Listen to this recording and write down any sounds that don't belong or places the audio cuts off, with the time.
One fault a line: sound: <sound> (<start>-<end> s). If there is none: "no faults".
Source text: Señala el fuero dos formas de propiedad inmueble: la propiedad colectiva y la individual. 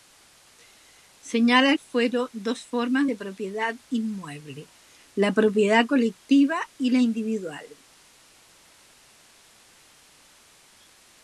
no faults